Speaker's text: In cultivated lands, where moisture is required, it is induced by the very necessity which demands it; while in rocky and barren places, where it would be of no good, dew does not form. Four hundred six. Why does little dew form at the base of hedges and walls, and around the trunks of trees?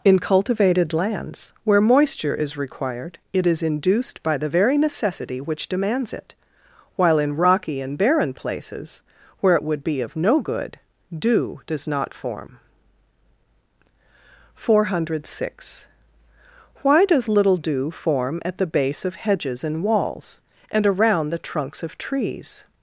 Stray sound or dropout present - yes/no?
no